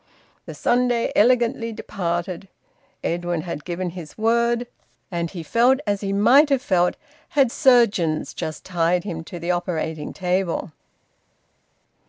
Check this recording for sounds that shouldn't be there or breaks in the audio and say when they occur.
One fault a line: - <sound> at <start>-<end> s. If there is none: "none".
none